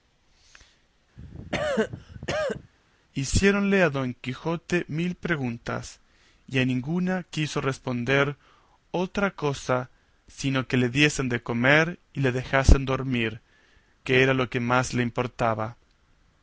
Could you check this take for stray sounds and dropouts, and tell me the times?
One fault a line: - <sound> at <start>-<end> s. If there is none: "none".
- cough at 1.2-2.7 s